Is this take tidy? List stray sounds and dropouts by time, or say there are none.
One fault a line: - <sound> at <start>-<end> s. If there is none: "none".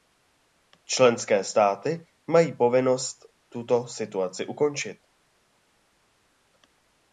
none